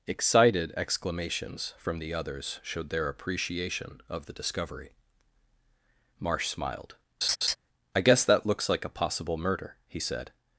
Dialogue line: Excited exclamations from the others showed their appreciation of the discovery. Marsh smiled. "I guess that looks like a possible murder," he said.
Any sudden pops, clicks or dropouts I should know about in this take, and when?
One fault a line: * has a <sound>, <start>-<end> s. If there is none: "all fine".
* has a laugh, 7.2-7.6 s